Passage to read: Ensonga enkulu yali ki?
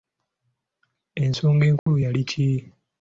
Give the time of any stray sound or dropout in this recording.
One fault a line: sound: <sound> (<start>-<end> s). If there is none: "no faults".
sound: dropout (1.8-1.9 s)